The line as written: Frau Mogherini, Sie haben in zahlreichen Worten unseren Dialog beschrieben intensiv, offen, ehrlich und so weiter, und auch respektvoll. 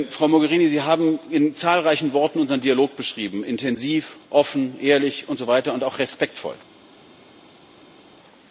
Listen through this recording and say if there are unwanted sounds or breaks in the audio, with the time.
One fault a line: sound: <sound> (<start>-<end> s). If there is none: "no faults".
no faults